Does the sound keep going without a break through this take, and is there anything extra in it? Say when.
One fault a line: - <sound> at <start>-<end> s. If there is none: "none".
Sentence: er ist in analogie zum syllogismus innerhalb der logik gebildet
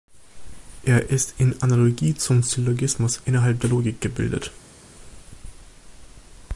none